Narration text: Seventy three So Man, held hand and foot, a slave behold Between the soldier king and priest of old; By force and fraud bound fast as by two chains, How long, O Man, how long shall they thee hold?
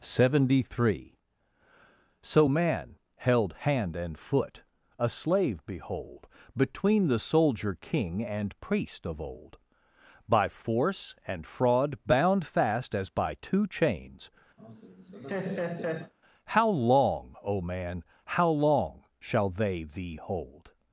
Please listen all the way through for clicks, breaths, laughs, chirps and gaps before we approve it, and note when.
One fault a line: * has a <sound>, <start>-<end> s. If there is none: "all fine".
* has a laugh, 14.6-16.1 s